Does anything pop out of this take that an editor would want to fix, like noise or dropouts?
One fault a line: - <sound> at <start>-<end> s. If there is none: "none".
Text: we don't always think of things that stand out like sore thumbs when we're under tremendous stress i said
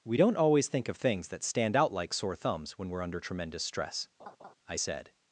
- laugh at 4.2-4.5 s